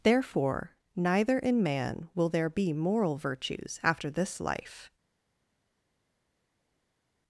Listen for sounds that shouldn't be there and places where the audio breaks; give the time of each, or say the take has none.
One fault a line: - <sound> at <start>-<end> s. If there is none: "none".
none